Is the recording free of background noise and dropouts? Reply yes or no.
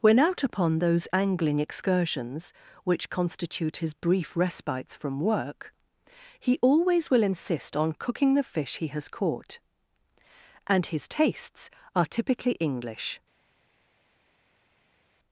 yes